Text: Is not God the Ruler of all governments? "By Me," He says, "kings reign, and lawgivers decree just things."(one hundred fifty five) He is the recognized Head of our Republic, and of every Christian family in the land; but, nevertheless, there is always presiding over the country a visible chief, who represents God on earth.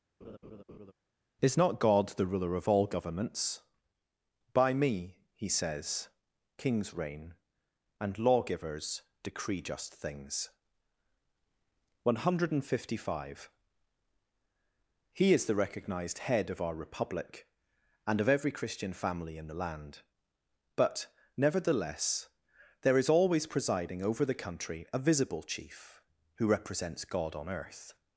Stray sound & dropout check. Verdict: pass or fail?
fail